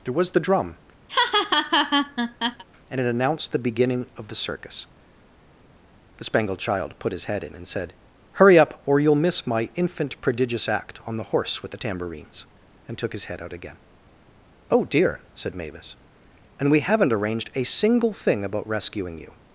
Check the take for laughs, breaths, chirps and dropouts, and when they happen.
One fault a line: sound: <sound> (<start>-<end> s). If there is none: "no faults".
sound: laugh (1.1-2.6 s)